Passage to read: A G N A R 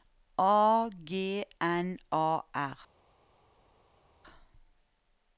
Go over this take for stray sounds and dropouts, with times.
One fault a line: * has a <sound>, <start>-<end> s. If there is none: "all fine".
all fine